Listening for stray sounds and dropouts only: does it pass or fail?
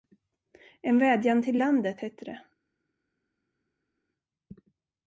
pass